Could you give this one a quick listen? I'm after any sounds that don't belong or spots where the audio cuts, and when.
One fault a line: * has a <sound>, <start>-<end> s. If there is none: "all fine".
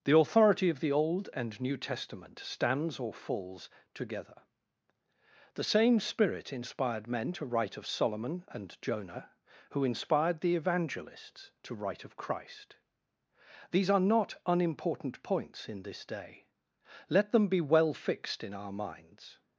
all fine